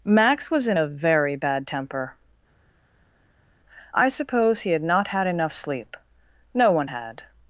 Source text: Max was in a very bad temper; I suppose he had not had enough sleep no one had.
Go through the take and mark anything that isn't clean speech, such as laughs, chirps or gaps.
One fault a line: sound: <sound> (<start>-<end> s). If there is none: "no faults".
no faults